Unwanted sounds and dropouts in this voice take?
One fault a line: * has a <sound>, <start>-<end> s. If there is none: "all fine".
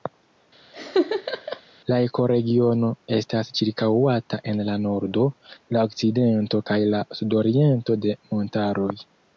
* has a laugh, 0.7-1.6 s